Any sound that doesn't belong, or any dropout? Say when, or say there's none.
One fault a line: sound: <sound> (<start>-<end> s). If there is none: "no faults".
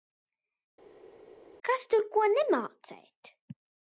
no faults